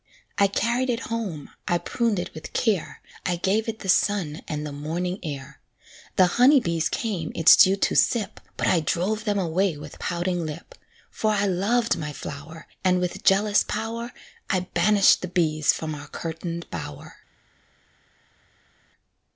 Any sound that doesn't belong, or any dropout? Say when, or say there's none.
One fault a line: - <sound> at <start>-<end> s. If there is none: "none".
none